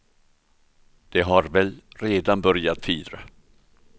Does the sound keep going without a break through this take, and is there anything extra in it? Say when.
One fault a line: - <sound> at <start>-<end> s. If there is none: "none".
none